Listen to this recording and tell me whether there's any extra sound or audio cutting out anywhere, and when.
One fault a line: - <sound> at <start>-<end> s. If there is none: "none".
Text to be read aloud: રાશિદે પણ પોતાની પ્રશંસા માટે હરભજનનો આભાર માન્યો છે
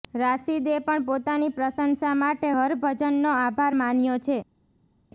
none